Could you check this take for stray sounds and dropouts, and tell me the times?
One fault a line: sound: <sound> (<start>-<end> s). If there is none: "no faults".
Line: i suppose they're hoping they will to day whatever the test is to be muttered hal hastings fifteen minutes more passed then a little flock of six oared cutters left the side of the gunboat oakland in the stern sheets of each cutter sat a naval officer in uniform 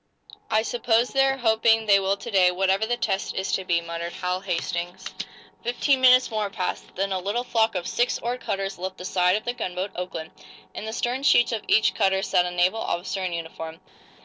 no faults